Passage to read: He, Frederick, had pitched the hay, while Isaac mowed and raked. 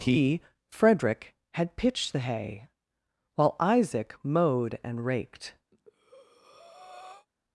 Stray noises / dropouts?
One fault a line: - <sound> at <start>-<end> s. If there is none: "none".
- breath at 5.7-7.3 s